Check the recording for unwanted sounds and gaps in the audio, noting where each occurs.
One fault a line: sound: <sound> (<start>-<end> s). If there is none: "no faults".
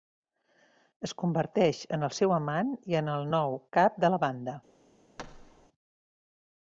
sound: thud (5.2-5.7 s)